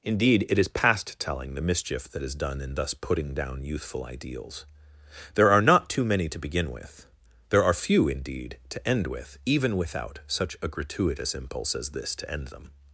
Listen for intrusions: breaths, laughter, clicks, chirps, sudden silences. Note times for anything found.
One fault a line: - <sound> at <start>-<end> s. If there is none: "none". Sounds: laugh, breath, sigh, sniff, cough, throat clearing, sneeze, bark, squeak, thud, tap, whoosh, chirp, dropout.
none